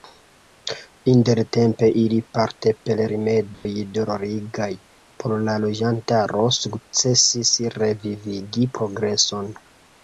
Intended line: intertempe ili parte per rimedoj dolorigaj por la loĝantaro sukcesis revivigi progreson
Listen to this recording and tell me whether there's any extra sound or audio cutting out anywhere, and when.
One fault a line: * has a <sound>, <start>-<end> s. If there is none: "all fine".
* has a dropout, 3.5-3.7 s